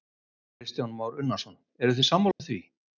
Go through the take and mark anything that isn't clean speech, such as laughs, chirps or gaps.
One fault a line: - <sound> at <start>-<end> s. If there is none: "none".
- dropout at 2.3-2.4 s